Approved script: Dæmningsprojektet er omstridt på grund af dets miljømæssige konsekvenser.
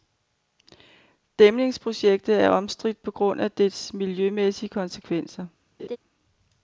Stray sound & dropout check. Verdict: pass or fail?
fail